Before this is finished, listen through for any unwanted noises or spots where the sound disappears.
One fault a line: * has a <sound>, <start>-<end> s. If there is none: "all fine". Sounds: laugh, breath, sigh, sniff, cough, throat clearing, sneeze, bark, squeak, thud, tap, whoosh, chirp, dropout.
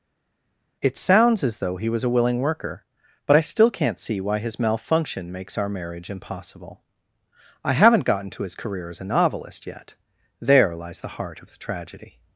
all fine